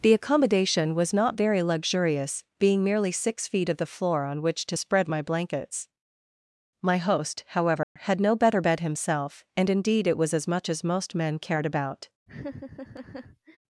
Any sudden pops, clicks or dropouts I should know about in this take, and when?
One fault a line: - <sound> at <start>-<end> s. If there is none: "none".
- dropout at 7.8-8.0 s
- laugh at 12.3-13.6 s